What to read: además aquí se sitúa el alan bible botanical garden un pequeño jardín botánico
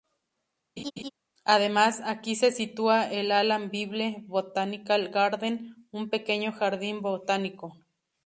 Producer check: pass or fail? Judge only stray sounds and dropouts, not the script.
fail